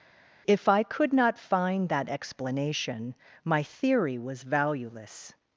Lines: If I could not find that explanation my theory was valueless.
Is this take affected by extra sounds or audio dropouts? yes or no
no